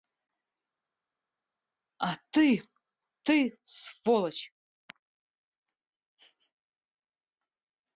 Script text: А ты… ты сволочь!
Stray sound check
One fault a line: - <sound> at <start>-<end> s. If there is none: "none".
none